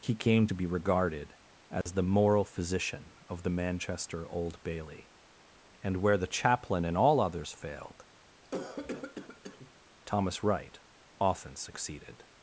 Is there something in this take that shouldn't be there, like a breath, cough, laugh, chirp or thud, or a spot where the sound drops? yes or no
yes